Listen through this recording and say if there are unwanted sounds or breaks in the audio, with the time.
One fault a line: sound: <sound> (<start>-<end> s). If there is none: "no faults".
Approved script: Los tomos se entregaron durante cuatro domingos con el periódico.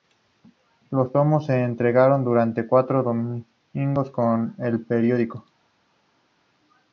no faults